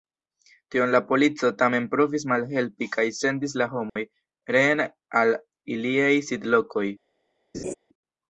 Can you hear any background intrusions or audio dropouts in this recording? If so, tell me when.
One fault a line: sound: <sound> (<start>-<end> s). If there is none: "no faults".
sound: dropout (3.9-4.0 s)
sound: laugh (7.5-7.7 s)